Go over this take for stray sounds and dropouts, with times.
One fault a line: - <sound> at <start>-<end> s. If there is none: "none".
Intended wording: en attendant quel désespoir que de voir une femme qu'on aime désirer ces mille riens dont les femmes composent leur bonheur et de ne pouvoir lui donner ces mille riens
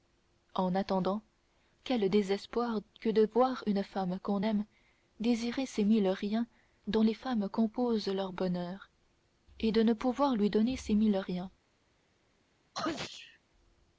- sneeze at 12.7-13.4 s